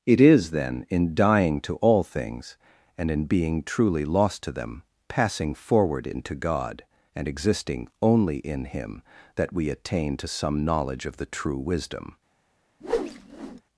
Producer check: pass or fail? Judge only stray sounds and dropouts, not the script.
fail